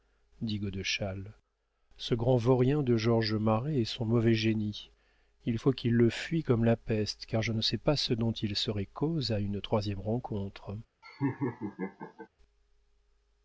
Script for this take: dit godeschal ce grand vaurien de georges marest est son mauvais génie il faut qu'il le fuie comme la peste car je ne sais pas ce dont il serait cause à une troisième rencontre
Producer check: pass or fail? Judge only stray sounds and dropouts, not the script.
fail